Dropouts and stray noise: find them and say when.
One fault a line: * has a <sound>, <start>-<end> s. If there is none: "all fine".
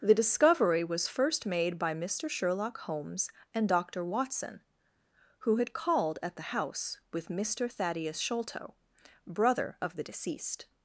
all fine